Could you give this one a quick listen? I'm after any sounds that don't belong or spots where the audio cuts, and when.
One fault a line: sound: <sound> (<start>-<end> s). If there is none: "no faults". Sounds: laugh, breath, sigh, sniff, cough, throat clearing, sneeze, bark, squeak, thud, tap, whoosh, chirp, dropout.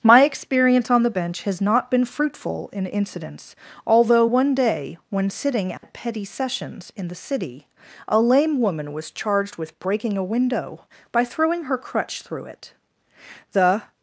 sound: dropout (5.8-5.8 s)